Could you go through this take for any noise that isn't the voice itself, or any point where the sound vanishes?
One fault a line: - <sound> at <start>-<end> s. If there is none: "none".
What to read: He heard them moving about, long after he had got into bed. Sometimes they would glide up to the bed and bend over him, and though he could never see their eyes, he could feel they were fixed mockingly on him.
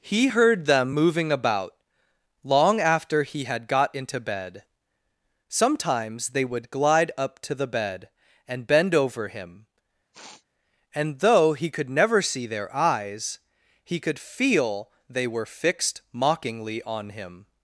- sniff at 10.1-10.5 s